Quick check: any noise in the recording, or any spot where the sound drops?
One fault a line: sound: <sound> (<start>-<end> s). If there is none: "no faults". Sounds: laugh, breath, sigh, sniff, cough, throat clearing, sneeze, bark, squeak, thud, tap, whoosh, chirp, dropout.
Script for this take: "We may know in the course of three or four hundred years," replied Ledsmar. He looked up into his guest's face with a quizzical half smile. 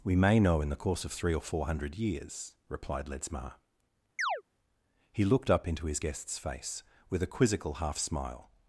sound: chirp (4.2-4.4 s)